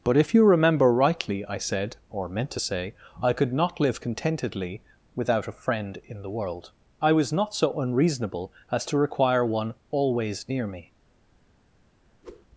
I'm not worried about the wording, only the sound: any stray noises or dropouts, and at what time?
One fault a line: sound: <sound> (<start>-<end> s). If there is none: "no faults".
sound: whoosh (12.2-12.5 s)